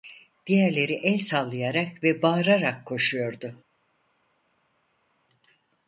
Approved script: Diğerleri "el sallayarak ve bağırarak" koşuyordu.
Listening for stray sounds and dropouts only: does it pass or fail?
pass